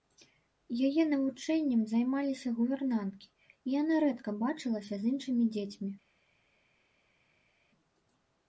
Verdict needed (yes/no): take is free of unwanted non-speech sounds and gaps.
yes